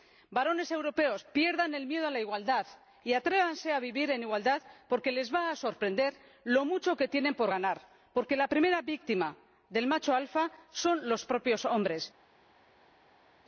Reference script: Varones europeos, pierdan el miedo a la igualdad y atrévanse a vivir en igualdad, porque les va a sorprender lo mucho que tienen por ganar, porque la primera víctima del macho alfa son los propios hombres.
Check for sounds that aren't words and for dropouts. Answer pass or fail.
pass